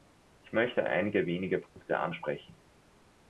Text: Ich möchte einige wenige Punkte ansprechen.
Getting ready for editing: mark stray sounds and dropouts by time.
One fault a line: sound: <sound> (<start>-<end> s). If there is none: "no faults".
sound: dropout (1.7-1.8 s)